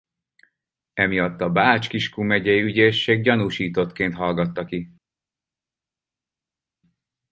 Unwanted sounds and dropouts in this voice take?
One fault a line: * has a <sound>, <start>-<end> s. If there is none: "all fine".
all fine